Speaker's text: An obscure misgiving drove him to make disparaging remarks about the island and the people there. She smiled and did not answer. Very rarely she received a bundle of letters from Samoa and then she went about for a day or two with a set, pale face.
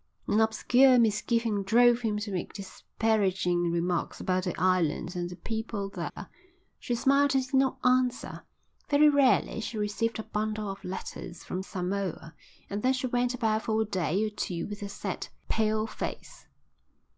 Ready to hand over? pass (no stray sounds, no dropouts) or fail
fail